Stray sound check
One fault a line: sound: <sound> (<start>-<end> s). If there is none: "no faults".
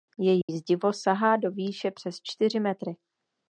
sound: dropout (0.4-0.5 s)